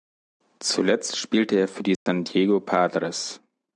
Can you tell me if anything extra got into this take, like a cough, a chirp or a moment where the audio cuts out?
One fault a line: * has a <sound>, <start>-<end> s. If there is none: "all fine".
* has a dropout, 2.0-2.1 s